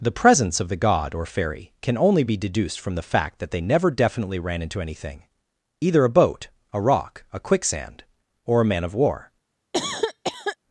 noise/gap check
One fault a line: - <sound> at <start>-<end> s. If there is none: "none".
- cough at 9.7-10.6 s